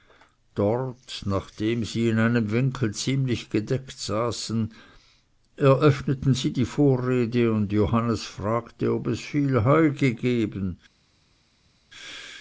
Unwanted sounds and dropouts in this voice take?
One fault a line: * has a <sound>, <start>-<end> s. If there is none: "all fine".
all fine